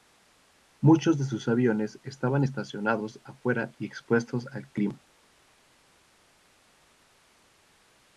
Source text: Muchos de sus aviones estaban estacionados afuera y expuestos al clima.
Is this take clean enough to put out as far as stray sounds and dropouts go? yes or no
yes